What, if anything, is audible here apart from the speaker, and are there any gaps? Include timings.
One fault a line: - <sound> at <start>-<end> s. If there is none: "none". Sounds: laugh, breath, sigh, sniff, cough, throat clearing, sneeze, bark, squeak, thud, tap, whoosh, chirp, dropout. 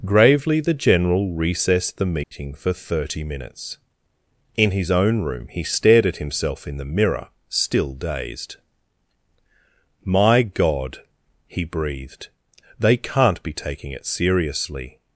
- dropout at 2.2-2.3 s